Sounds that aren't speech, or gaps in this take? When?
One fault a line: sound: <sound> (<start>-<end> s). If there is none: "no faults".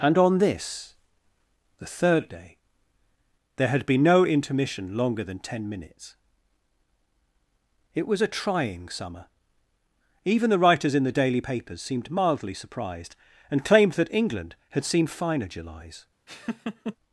sound: laugh (16.3-17.0 s)